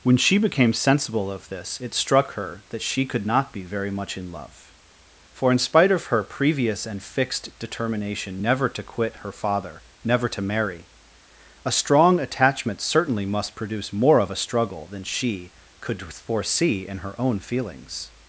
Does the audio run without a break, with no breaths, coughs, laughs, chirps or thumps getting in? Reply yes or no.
yes